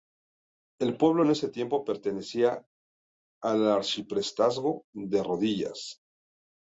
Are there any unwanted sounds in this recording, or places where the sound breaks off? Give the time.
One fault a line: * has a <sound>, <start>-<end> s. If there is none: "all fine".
all fine